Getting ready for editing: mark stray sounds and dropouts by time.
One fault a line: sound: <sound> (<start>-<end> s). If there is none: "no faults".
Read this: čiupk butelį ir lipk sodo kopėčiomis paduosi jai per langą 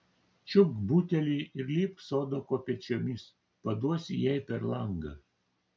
no faults